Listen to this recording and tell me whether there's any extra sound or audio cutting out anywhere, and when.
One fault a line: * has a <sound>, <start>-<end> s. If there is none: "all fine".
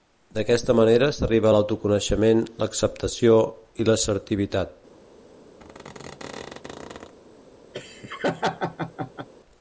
* has a squeak, 5.6-7.1 s
* has a laugh, 7.7-9.3 s